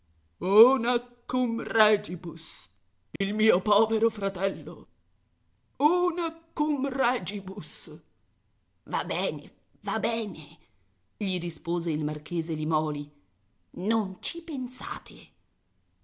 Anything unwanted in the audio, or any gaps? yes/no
yes